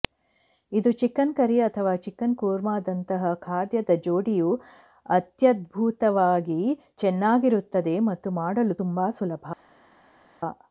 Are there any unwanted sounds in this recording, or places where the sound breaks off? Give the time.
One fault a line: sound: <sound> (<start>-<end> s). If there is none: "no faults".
no faults